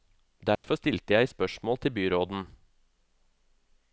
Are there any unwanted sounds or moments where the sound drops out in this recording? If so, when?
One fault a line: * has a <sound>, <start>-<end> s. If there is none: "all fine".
* has a dropout, 0.6-0.6 s